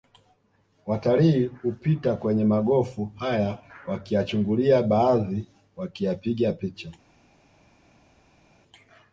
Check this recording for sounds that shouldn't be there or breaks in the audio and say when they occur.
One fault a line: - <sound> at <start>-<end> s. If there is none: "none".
none